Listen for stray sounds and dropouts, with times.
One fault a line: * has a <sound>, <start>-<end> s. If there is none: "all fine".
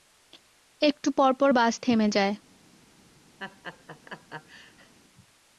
* has a laugh, 3.4-4.9 s